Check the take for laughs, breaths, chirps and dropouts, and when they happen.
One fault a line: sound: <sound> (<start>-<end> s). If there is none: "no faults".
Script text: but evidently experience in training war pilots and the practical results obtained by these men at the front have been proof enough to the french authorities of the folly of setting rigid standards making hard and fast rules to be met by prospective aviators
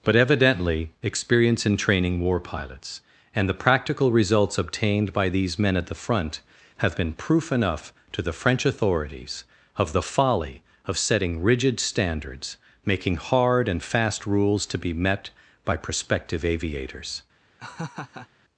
sound: laugh (17.6-18.3 s)